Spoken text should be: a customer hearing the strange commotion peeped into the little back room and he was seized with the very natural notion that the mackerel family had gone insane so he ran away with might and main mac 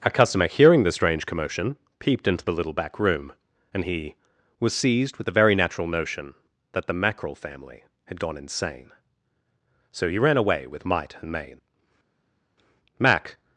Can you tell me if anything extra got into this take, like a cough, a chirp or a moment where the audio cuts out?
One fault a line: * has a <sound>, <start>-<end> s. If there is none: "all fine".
all fine